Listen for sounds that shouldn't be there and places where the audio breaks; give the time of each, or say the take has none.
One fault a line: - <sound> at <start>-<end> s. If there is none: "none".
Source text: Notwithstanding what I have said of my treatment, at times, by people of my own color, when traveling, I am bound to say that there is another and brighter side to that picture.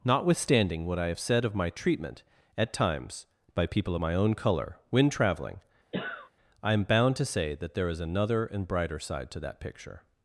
- cough at 5.9-6.3 s